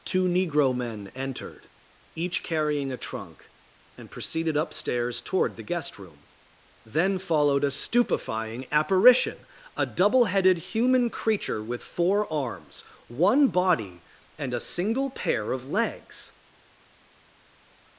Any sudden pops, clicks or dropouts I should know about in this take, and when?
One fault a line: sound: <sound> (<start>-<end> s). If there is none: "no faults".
no faults